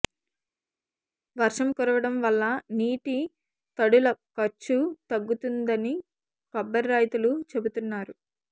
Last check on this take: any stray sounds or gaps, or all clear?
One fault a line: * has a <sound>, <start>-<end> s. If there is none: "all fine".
all fine